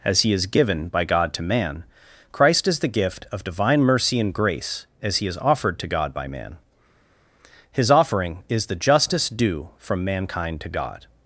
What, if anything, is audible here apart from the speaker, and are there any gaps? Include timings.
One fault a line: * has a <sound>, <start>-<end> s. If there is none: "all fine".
all fine